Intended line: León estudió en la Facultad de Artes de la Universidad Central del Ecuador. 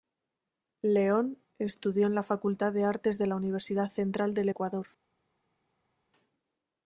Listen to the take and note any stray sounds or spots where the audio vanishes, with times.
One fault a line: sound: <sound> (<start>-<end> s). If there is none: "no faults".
no faults